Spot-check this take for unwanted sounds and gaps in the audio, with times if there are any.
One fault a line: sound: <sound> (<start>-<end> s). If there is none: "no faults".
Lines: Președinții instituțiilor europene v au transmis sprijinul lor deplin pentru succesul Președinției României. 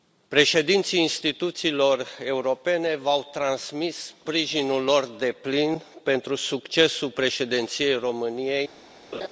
sound: laugh (9.1-9.3 s)